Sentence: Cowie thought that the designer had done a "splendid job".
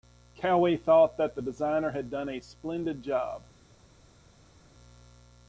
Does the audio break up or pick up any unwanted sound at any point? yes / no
no